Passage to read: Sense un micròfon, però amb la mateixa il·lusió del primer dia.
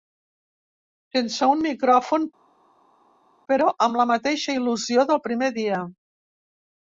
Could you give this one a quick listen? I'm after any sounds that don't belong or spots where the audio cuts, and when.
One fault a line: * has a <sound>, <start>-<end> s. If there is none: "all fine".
all fine